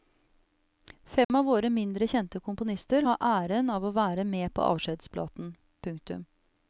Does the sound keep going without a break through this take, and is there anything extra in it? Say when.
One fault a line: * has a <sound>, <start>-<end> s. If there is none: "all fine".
* has a dropout, 1.2-1.3 s